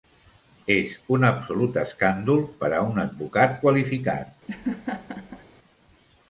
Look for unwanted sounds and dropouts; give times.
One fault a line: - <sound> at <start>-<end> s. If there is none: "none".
- laugh at 4.5-5.4 s